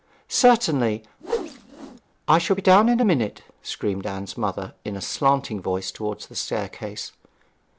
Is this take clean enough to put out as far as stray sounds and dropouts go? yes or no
no